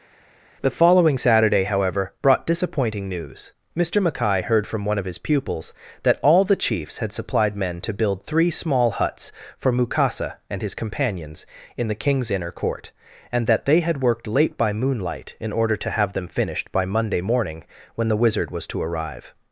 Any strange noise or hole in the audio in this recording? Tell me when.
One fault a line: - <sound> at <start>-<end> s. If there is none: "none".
none